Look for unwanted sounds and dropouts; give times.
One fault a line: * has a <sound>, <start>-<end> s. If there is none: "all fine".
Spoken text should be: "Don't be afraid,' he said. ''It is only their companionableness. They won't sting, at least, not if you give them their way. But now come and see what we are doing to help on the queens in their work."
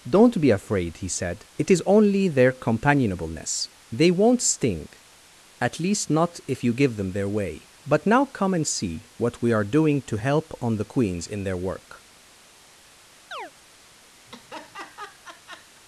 * has a chirp, 13.3-13.5 s
* has a laugh, 14.3-15.8 s